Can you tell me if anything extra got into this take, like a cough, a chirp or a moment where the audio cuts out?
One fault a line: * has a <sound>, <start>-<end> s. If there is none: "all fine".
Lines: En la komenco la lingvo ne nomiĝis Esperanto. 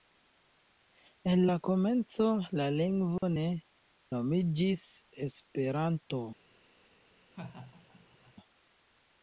* has a dropout, 3.2-3.2 s
* has a laugh, 7.3-8.3 s